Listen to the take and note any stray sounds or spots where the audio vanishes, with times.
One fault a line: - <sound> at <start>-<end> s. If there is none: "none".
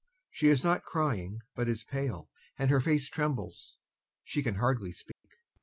- dropout at 5.1-5.2 s